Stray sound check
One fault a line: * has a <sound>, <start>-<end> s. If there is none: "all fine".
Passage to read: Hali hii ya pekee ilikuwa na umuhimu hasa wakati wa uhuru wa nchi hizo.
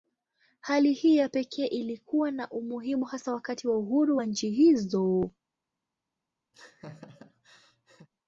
* has a laugh, 6.5-8.1 s